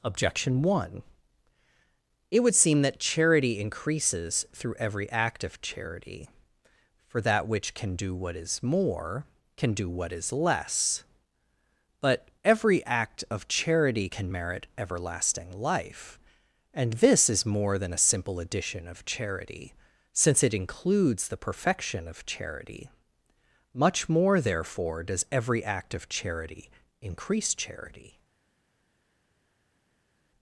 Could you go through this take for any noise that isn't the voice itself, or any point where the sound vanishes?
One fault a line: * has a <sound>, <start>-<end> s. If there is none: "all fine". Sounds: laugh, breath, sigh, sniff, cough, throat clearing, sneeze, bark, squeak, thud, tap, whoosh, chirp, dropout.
all fine